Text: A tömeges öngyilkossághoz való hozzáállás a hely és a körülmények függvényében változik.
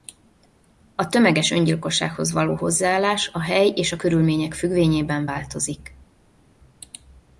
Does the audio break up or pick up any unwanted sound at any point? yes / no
no